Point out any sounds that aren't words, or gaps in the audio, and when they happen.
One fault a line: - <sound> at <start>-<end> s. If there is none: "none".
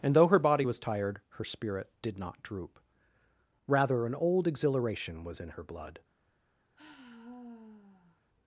- sigh at 6.8-8.2 s